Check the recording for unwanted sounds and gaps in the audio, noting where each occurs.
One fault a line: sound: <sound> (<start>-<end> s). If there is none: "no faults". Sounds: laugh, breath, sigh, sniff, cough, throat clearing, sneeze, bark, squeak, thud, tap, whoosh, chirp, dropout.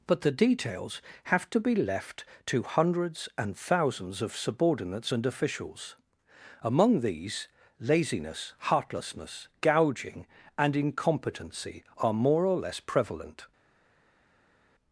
no faults